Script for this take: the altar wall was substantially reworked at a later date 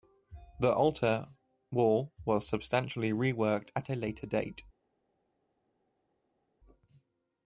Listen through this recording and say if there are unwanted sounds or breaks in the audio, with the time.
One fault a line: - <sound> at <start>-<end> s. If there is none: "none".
none